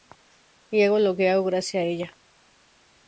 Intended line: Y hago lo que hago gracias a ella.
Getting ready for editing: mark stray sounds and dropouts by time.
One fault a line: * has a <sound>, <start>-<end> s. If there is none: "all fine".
all fine